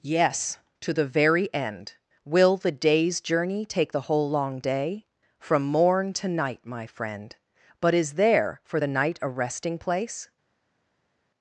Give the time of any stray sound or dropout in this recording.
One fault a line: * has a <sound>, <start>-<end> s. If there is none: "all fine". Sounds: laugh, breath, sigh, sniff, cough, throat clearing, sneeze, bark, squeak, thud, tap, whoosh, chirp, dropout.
all fine